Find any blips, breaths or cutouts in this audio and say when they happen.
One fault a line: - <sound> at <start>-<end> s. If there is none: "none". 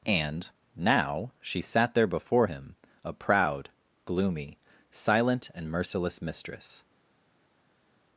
none